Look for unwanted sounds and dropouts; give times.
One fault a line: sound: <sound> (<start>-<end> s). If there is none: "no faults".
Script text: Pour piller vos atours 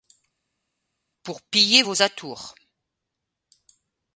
no faults